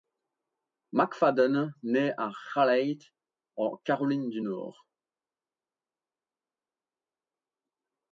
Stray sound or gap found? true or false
false